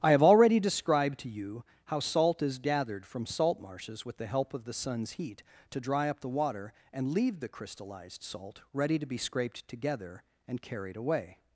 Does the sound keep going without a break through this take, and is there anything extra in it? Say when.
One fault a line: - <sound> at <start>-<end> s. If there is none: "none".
none